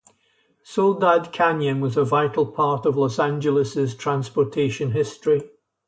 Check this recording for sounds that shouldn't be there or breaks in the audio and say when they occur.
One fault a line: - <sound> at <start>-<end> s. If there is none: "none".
none